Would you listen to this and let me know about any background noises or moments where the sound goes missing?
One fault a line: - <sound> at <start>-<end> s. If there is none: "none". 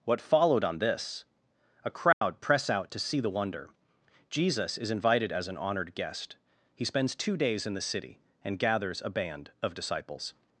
- dropout at 2.1-2.2 s